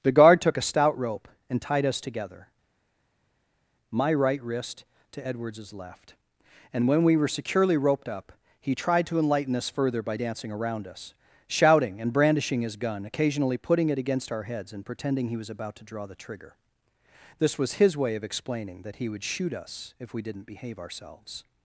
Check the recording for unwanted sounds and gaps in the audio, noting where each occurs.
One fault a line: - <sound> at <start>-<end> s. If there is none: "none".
none